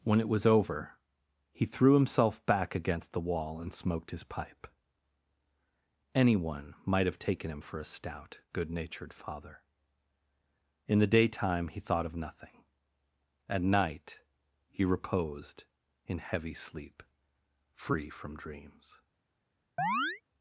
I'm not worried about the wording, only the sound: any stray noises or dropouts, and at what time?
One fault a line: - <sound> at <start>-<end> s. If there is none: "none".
- chirp at 19.8-20.2 s